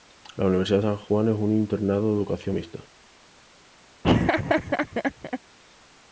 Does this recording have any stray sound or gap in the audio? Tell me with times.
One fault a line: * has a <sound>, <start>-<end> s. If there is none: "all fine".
* has a laugh, 4.0-5.4 s